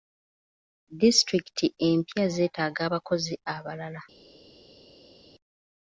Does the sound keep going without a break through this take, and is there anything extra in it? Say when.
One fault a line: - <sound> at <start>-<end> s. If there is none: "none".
none